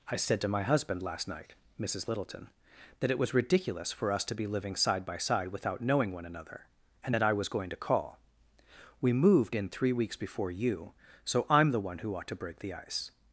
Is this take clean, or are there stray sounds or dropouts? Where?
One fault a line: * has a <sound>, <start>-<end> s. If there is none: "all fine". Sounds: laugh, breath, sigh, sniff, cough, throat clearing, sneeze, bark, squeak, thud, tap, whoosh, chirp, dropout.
all fine